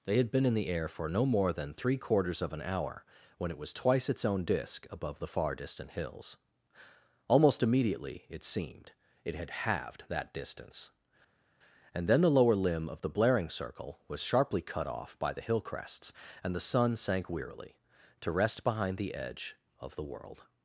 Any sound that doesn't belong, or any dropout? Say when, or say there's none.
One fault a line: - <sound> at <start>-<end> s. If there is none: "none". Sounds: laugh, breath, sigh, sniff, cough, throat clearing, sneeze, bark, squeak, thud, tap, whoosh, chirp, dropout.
none